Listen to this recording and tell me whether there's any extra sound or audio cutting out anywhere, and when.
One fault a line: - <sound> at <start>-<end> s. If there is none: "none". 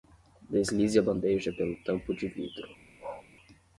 - bark at 3.0-3.3 s